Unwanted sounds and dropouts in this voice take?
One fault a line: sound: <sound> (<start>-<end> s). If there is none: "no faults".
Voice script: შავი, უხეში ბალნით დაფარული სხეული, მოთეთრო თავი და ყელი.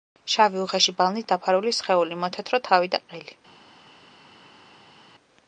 no faults